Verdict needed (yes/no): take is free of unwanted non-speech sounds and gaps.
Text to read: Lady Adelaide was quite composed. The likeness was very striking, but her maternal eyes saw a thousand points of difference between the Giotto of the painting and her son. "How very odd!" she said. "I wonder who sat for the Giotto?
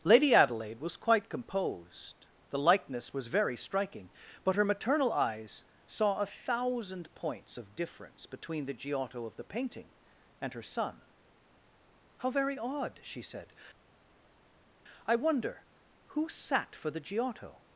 yes